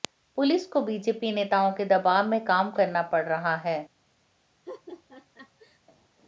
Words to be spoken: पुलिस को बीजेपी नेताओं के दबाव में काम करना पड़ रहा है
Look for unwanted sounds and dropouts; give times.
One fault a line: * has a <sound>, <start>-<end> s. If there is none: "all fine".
* has a laugh, 4.7-5.8 s